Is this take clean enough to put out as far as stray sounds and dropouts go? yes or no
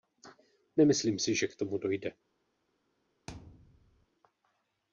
no